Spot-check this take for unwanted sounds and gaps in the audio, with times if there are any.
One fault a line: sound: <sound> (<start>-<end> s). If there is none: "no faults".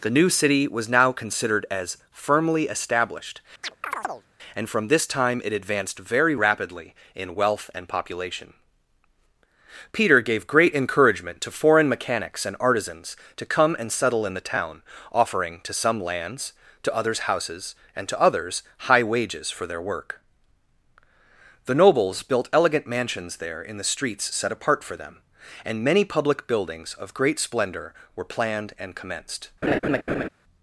sound: chirp (3.6-4.3 s)
sound: laugh (29.6-30.3 s)